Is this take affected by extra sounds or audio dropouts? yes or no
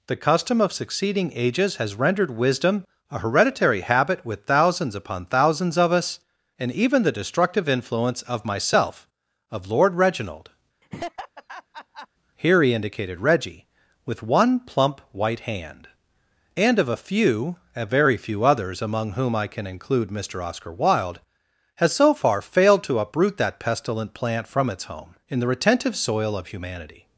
yes